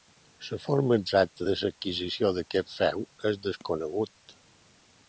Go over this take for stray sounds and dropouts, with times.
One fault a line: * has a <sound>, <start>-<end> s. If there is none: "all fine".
all fine